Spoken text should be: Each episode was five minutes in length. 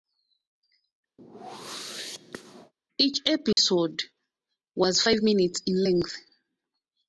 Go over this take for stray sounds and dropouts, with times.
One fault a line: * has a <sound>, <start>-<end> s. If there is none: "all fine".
* has a whoosh, 1.2-2.7 s
* has a dropout, 3.5-3.6 s